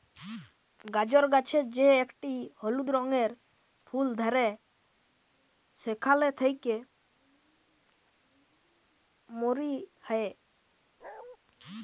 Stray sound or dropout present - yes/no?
yes